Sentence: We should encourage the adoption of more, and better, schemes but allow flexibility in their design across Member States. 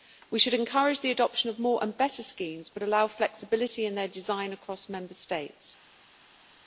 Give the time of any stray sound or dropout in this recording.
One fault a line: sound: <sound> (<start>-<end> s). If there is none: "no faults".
no faults